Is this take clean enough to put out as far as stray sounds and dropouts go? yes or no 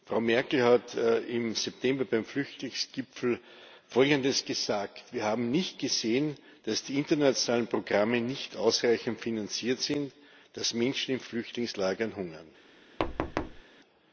no